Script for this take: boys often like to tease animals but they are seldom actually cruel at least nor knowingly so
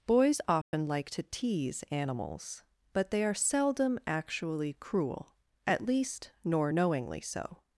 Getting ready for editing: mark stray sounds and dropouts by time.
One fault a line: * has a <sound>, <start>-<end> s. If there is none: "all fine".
* has a dropout, 0.6-0.7 s